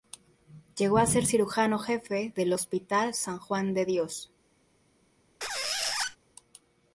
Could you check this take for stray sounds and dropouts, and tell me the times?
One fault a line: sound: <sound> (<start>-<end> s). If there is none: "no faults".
sound: squeak (5.4-6.2 s)